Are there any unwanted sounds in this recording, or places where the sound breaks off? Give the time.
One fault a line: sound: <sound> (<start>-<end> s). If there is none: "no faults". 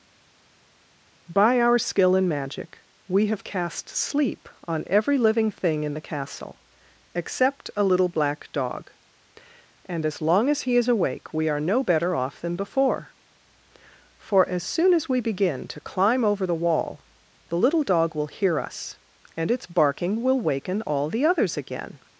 no faults